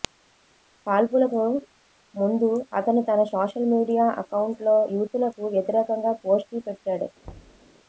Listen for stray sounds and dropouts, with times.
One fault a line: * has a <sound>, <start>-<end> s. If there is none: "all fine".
* has a thud, 7.2-7.7 s